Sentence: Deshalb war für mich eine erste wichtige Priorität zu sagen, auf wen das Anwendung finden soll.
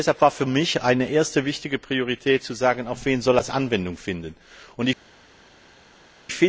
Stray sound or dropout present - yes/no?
no